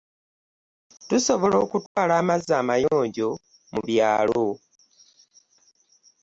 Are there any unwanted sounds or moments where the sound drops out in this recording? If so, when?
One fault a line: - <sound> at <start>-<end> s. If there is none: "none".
- dropout at 1.9-2.0 s